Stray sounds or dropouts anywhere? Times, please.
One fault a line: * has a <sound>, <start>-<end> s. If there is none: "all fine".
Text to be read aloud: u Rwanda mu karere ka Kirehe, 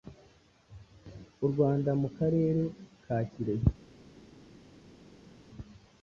all fine